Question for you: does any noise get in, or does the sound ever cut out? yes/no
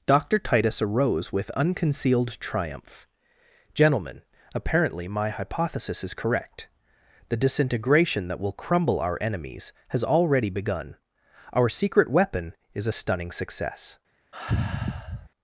yes